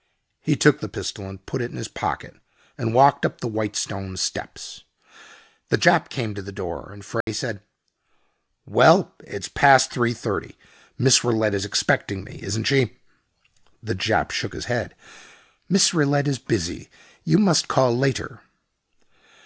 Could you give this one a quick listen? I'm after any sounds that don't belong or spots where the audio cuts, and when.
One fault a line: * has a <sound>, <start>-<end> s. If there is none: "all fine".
* has a dropout, 7.2-7.3 s